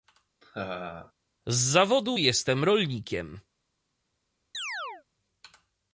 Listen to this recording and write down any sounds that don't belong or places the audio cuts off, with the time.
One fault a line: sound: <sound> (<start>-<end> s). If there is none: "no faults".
sound: laugh (0.4-1.1 s)
sound: chirp (4.5-5.0 s)